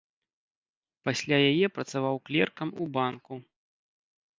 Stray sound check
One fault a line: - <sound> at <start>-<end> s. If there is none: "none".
none